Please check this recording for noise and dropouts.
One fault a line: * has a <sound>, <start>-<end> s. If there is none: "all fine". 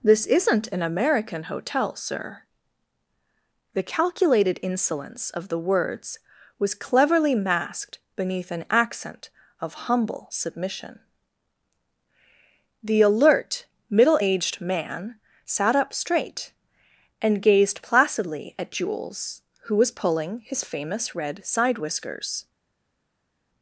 all fine